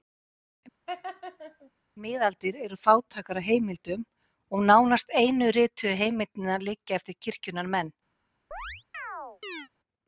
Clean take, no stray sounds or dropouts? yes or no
no